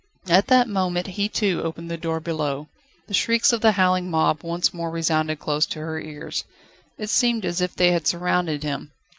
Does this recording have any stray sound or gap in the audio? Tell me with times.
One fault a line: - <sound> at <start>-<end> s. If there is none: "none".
none